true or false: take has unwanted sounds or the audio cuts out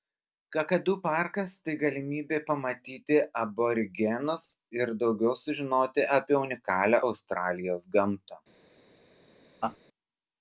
true